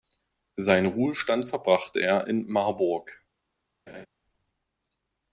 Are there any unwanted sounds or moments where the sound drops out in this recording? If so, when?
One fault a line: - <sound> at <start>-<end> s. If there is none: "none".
- laugh at 3.9-4.1 s